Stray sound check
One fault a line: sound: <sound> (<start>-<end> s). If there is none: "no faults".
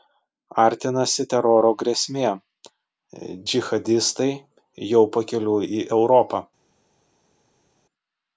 no faults